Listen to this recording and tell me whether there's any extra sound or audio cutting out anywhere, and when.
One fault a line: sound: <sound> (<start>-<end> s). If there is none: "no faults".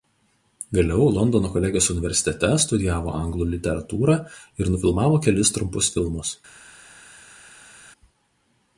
no faults